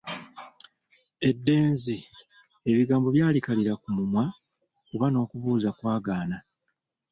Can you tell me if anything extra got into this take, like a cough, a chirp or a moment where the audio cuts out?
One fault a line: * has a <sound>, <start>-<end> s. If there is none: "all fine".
all fine